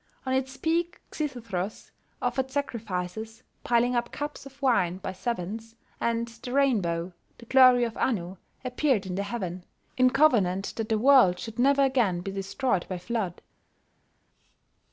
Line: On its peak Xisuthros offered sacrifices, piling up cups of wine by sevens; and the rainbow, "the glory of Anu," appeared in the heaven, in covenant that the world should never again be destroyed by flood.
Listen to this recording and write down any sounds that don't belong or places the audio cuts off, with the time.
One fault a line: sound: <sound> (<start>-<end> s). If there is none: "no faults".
no faults